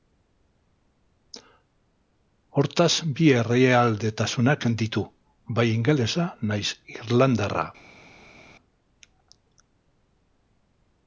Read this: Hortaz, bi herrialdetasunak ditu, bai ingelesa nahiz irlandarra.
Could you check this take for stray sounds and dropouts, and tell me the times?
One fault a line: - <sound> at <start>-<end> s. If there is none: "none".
none